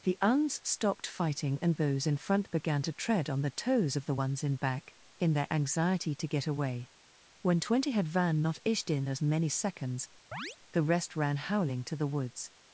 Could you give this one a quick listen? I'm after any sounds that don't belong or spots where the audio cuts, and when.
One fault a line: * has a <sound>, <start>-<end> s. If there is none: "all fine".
* has a chirp, 10.3-10.6 s